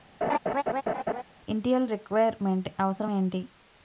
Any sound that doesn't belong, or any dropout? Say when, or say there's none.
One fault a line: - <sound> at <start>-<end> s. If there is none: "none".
- laugh at 0.2-1.2 s